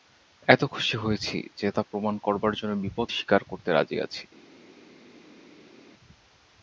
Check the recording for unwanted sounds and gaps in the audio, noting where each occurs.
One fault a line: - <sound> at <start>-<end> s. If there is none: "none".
none